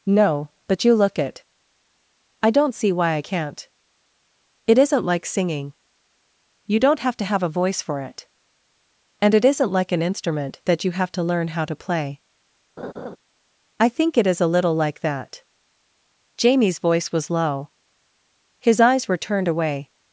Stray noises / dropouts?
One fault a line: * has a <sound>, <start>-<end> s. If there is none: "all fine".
* has a laugh, 12.8-13.2 s